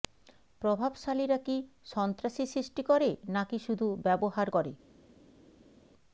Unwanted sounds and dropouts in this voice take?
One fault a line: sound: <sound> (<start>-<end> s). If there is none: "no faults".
no faults